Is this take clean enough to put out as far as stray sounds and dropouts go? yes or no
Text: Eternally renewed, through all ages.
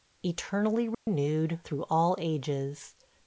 no